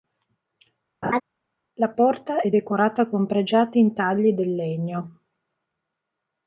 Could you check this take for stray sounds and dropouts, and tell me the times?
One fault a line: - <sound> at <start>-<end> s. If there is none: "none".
- laugh at 1.0-1.2 s